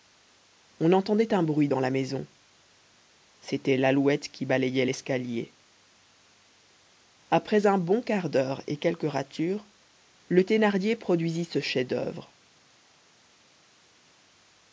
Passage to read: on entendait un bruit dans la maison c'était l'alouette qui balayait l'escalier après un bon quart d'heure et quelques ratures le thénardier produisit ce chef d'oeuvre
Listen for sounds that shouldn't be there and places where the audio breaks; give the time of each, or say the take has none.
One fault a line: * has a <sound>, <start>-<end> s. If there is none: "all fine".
all fine